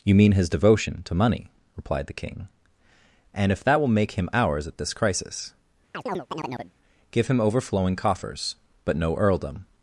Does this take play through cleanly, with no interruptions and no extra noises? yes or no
no